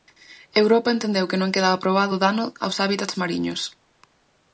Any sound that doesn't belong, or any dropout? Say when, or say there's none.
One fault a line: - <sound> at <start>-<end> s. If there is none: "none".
none